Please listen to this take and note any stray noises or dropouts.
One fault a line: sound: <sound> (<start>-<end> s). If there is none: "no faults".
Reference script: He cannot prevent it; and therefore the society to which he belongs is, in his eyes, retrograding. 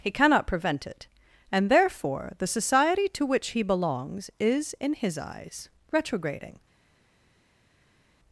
no faults